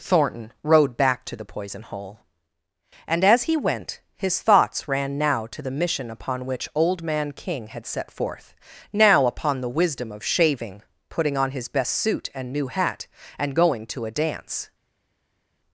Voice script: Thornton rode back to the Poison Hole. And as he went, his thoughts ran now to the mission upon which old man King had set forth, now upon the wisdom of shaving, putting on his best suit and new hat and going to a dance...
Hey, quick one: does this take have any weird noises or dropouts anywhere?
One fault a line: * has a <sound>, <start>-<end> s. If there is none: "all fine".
all fine